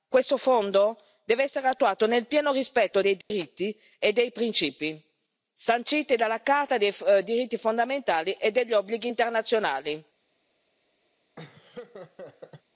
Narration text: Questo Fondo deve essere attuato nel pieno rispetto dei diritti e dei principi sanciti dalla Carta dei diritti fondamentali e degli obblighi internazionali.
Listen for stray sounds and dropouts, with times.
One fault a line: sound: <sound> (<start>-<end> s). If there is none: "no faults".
sound: dropout (3.2-3.3 s)
sound: laugh (11.4-12.6 s)